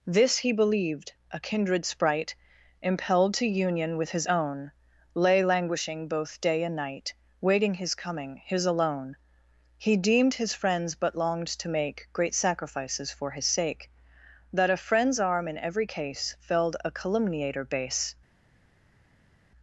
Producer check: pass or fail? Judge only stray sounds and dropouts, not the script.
pass